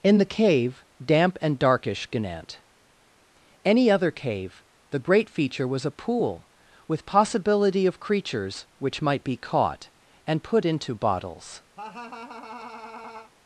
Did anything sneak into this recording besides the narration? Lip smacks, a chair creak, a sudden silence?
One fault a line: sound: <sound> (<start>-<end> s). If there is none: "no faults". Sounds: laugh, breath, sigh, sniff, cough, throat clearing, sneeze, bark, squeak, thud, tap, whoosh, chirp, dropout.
sound: laugh (11.8-13.3 s)